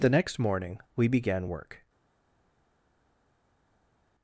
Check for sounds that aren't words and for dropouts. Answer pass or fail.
pass